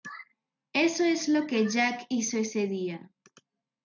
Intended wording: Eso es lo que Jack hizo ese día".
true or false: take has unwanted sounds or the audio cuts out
false